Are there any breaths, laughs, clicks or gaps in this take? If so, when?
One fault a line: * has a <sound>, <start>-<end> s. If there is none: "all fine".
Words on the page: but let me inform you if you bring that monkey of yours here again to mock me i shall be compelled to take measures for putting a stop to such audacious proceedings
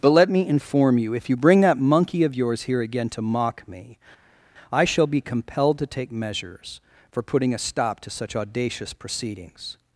all fine